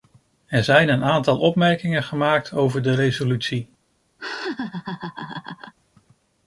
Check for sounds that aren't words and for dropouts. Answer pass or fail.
fail